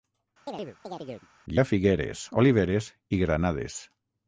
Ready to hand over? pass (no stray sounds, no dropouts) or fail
fail